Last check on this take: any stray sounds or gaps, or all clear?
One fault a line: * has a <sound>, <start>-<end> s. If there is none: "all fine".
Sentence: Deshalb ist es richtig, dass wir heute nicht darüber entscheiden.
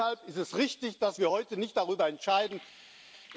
all fine